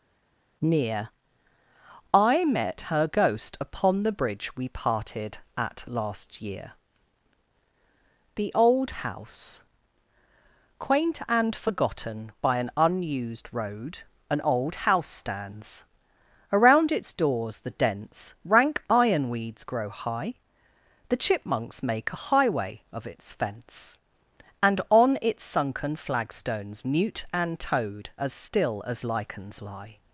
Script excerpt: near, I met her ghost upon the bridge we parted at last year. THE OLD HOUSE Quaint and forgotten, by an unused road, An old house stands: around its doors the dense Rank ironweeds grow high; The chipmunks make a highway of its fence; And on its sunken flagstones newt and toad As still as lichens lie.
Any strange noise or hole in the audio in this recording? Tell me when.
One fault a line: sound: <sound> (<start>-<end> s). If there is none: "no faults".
no faults